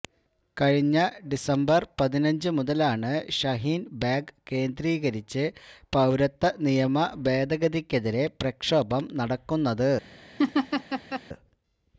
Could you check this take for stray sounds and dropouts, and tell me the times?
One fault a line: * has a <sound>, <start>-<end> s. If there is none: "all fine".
* has a laugh, 10.4-11.2 s